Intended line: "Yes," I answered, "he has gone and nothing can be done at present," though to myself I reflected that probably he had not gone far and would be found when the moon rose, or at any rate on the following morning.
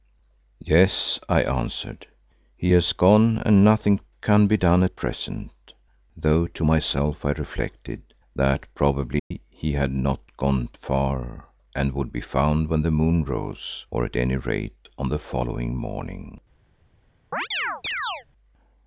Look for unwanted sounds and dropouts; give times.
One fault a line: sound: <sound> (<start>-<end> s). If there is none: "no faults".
sound: dropout (9.2-9.3 s)
sound: chirp (17.3-18.3 s)